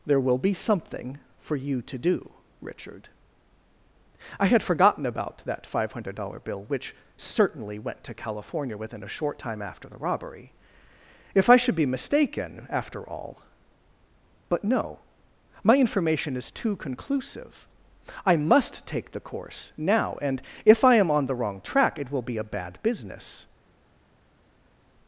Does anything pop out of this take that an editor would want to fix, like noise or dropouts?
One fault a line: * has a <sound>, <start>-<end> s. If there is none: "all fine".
all fine